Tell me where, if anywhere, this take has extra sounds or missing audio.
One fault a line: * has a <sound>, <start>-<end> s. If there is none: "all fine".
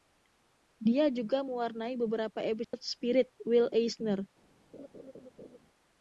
* has a dropout, 2.6-2.7 s
* has a laugh, 4.7-5.6 s